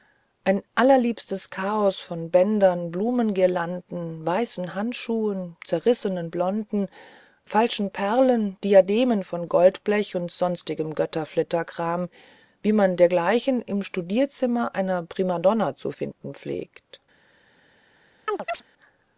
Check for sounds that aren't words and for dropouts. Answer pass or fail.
fail